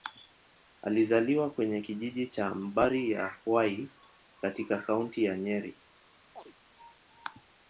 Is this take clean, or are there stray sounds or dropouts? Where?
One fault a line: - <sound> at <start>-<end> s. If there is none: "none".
- chirp at 6.3-6.5 s